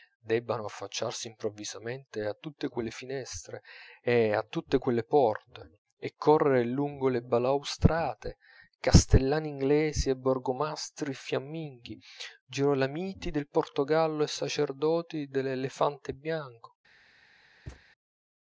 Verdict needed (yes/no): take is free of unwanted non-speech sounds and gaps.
no